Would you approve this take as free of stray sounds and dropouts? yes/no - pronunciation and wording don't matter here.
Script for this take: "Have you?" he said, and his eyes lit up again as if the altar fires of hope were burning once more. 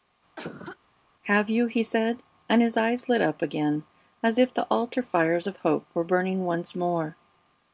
no